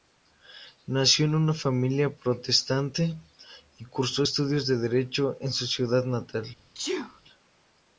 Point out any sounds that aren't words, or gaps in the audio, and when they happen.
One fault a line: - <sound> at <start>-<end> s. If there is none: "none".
- sneeze at 6.7-7.2 s